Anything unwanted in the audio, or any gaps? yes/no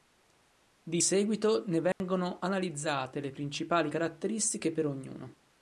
yes